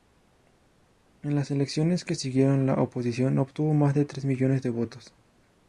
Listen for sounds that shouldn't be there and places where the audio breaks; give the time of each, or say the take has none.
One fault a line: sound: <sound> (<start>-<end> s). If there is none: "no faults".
no faults